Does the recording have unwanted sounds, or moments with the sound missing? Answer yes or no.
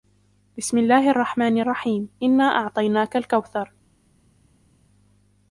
no